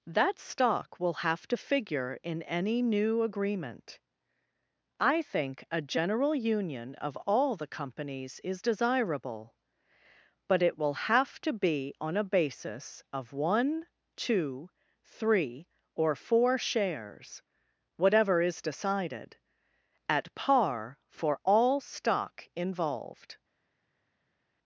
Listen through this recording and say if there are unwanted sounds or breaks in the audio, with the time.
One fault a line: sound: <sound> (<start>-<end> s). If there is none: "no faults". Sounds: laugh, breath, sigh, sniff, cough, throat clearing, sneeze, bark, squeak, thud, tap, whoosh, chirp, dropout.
no faults